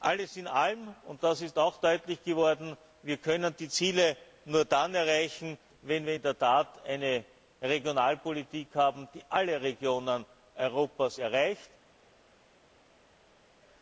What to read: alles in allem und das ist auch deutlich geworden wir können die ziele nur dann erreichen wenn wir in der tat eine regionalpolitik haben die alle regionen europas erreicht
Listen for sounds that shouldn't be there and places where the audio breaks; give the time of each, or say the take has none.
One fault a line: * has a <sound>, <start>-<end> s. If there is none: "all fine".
all fine